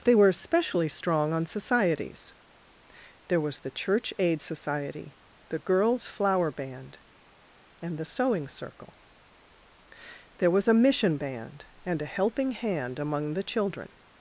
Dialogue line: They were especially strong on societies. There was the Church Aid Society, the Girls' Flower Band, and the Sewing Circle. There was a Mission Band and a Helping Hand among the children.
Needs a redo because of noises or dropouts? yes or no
no